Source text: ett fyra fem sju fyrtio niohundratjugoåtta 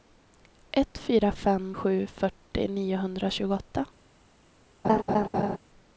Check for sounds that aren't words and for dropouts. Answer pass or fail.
fail